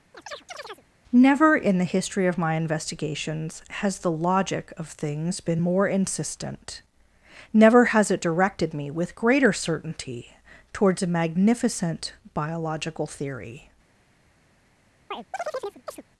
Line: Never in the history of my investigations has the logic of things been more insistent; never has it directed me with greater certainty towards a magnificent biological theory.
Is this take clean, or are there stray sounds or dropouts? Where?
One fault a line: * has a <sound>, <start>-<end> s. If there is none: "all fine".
* has a chirp, 0.1-0.8 s
* has a chirp, 15.1-16.0 s